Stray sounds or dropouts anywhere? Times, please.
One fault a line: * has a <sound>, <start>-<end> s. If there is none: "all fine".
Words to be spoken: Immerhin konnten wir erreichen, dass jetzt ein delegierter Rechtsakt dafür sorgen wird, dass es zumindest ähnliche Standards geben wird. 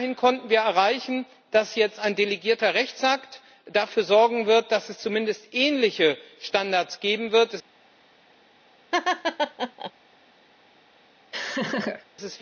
* has a laugh, 8.9-9.9 s
* has a laugh, 11.3-12.1 s